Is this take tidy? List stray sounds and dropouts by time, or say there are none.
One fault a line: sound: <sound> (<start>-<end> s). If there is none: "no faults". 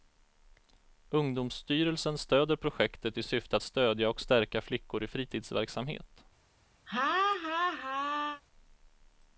sound: laugh (6.9-8.4 s)